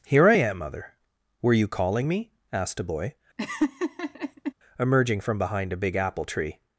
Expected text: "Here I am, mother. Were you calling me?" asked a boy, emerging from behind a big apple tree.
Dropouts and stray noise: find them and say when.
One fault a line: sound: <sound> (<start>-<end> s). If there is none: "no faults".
sound: laugh (3.4-4.5 s)